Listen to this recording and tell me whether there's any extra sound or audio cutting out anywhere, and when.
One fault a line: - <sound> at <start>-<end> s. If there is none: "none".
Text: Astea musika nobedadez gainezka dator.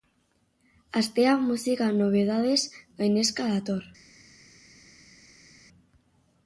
none